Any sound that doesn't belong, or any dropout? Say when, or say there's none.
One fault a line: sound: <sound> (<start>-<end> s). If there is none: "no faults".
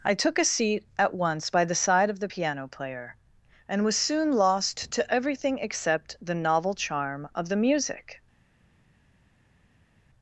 no faults